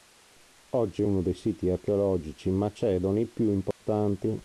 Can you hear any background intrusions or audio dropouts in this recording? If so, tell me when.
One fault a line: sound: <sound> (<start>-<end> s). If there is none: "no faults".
sound: dropout (3.7-3.8 s)